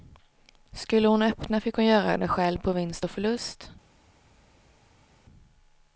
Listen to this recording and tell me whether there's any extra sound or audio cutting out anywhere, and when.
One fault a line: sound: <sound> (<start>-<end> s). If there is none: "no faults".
no faults